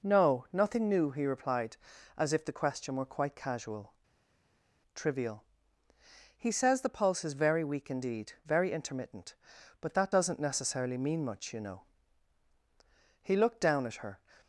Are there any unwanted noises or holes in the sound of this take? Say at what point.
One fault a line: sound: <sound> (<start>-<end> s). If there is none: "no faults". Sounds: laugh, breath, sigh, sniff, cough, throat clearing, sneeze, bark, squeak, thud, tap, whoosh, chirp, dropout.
no faults